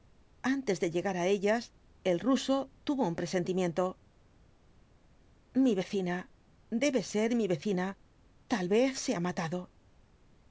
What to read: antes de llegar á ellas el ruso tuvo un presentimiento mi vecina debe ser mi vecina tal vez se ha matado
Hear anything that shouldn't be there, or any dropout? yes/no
no